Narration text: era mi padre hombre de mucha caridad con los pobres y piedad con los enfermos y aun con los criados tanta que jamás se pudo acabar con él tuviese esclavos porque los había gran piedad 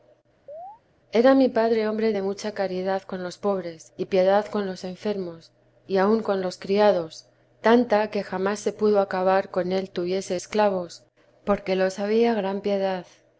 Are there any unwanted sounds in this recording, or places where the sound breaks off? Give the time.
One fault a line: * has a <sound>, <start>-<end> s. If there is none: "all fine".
* has a chirp, 0.5-0.8 s